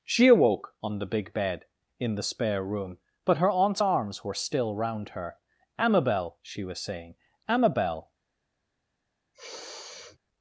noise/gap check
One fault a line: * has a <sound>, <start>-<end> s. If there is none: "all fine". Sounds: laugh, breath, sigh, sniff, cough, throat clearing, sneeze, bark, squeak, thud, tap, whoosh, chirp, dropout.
* has a sniff, 9.3-10.2 s